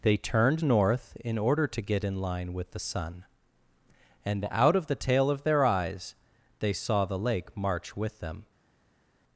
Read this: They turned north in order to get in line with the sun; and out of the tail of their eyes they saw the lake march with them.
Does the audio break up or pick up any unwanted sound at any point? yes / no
no